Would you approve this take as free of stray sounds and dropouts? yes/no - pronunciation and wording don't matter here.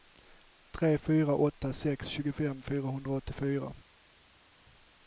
yes